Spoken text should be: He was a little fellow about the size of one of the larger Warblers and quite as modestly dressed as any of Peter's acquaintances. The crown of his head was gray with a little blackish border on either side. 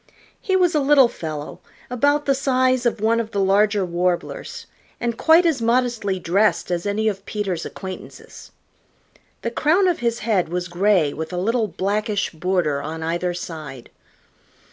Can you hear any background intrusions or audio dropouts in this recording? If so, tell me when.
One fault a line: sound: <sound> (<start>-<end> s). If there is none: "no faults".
no faults